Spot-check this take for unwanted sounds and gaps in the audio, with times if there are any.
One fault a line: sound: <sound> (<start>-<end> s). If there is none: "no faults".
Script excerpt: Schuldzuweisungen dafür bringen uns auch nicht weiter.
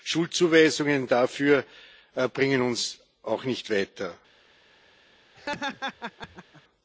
sound: laugh (5.4-6.6 s)